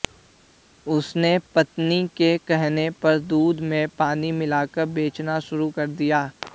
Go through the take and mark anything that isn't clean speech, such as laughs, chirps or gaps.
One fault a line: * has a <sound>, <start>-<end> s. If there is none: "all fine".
all fine